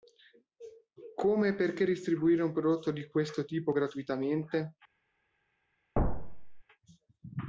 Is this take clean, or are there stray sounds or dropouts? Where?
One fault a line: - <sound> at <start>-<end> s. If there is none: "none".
- thud at 6.0-6.6 s